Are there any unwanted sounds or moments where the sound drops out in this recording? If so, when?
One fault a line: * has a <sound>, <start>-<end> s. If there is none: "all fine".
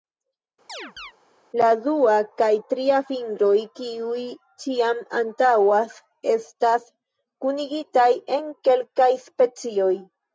* has a chirp, 0.7-1.1 s